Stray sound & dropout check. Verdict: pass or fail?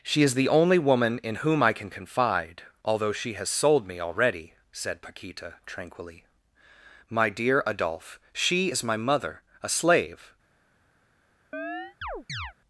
fail